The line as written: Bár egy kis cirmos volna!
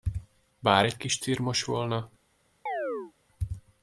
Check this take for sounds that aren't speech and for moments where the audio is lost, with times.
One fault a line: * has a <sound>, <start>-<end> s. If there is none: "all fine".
* has a chirp, 2.7-3.1 s